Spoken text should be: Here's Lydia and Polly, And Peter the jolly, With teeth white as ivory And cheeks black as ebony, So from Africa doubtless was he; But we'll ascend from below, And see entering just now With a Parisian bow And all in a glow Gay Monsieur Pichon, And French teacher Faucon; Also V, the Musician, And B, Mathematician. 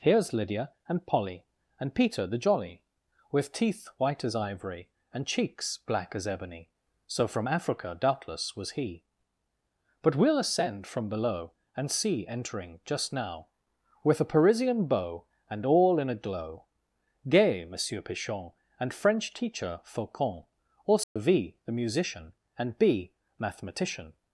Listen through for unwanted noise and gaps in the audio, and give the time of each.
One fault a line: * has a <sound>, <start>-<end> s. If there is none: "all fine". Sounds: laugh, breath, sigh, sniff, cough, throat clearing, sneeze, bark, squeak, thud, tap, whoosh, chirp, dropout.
* has a dropout, 21.0-21.2 s